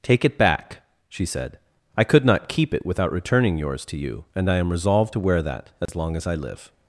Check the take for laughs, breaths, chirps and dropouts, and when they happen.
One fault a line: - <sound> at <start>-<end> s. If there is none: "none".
- dropout at 5.9-5.9 s